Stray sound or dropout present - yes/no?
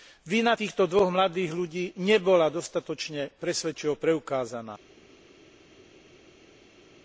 no